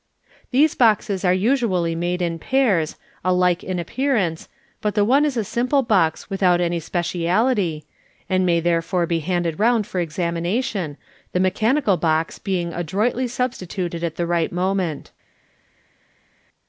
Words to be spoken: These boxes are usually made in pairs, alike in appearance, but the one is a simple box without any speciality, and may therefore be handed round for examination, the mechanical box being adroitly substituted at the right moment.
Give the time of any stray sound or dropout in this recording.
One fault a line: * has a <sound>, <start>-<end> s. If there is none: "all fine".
all fine